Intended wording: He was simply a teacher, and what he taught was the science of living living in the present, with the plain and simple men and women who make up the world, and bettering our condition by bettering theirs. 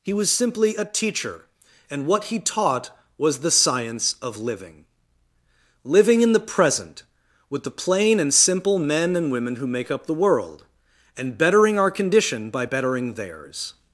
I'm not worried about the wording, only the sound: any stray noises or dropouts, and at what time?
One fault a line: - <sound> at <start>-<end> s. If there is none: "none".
none